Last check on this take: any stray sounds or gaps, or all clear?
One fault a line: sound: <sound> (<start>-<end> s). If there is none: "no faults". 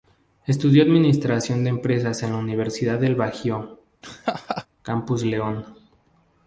sound: laugh (4.0-4.7 s)